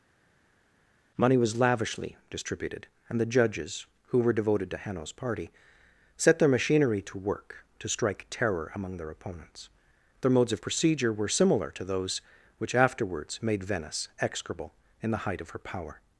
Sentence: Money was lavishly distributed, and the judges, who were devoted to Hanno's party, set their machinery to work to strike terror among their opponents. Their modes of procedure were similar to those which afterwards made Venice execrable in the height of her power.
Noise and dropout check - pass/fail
pass